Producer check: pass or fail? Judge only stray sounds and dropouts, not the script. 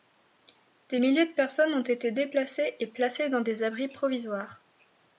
pass